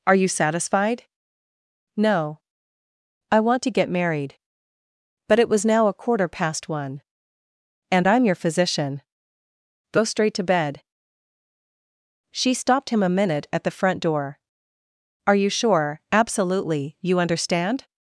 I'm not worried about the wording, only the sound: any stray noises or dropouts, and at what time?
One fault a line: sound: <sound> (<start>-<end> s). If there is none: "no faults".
no faults